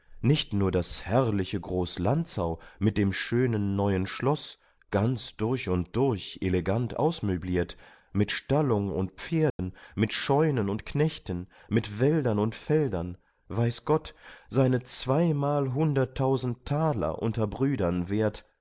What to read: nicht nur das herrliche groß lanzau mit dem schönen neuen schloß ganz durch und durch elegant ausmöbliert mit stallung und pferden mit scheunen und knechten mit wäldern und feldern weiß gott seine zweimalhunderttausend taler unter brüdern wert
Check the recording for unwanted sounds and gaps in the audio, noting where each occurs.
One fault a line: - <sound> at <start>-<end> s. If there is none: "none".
- dropout at 9.5-9.6 s